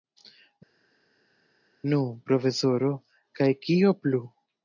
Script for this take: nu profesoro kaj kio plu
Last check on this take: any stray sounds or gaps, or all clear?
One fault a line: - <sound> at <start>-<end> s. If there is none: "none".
none